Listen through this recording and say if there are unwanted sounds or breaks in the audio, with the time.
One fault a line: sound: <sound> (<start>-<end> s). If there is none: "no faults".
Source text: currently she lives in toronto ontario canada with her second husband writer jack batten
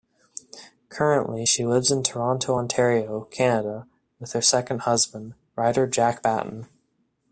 no faults